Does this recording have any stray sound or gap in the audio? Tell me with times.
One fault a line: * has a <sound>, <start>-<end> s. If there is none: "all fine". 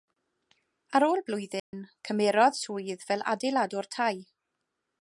* has a dropout, 1.6-1.7 s